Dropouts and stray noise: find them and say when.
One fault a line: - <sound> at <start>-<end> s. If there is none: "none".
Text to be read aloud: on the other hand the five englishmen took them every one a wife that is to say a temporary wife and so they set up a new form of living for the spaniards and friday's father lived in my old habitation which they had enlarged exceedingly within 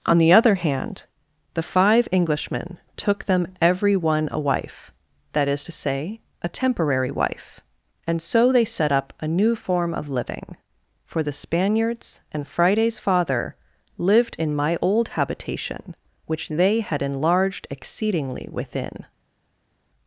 none